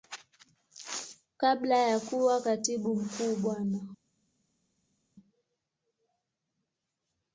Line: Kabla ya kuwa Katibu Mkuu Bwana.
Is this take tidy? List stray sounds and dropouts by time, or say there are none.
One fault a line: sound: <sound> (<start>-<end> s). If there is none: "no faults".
no faults